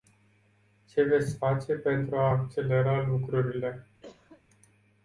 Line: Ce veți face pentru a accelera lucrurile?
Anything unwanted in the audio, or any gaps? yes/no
yes